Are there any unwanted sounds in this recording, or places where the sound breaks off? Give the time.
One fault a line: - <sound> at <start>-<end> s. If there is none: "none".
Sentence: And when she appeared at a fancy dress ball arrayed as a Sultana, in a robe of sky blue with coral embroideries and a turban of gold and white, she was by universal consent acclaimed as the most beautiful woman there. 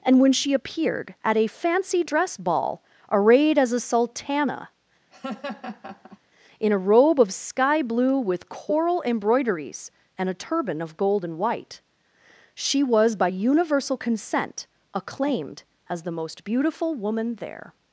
- laugh at 5.1-6.2 s